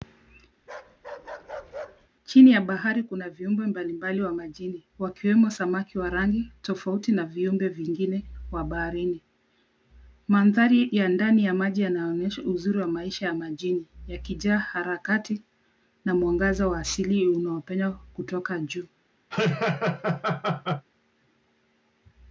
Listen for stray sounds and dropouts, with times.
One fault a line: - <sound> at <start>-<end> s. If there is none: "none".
- bark at 0.6-2.1 s
- laugh at 19.3-20.9 s